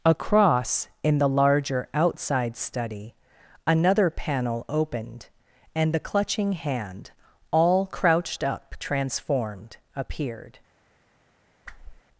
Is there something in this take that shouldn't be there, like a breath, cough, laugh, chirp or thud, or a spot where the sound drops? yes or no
yes